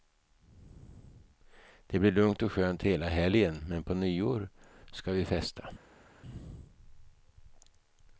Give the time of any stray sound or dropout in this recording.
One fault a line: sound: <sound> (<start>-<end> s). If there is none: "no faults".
no faults